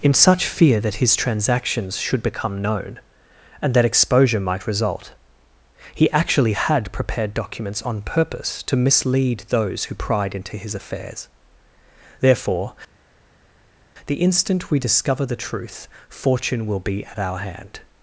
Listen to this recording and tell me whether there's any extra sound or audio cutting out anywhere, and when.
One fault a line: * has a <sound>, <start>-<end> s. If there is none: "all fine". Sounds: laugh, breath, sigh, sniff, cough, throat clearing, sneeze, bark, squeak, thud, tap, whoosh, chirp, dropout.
all fine